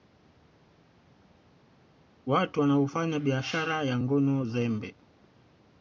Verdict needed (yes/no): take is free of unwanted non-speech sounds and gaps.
yes